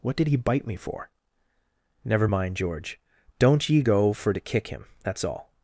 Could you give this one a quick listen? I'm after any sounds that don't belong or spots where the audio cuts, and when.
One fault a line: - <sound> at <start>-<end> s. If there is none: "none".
none